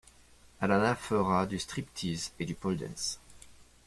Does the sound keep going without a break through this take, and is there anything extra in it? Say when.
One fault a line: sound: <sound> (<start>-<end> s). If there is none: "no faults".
no faults